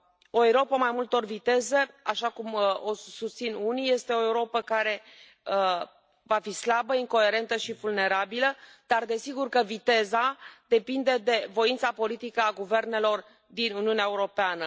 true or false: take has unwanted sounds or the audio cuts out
false